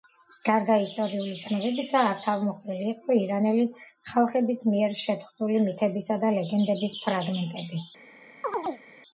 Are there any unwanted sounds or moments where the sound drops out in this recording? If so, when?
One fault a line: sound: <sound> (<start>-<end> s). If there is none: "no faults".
sound: chirp (8.4-8.8 s)